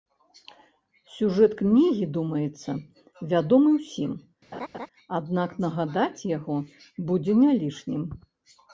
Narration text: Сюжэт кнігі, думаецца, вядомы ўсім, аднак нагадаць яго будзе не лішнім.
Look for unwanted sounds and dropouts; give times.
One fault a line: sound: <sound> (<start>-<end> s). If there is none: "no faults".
sound: laugh (4.5-4.9 s)